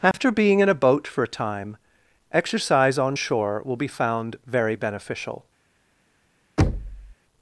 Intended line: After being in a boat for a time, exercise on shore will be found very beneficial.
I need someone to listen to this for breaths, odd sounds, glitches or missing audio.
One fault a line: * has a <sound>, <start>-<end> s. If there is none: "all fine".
* has a dropout, 0.1-0.1 s
* has a thud, 6.6-7.1 s